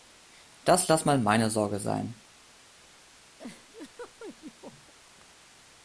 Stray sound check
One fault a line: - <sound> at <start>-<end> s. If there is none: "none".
- laugh at 3.4-4.9 s